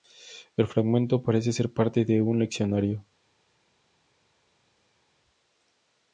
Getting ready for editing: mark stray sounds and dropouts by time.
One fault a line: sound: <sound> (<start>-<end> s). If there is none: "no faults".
no faults